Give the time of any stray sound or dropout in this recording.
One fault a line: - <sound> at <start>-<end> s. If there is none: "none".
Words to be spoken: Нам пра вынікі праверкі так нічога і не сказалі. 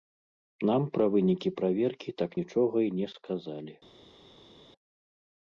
none